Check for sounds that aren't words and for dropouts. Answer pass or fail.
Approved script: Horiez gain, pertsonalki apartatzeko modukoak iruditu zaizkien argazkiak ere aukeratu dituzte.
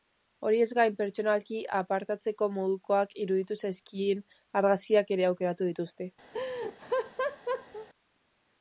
fail